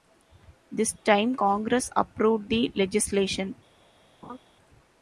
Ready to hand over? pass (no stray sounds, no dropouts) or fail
fail